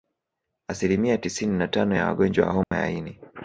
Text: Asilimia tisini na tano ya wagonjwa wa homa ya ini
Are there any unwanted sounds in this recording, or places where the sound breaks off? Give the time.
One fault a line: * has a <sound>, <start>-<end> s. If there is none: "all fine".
* has a dropout, 2.6-2.7 s